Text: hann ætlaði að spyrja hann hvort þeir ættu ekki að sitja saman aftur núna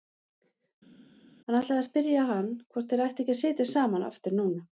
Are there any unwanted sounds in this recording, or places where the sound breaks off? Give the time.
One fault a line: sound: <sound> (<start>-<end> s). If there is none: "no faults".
no faults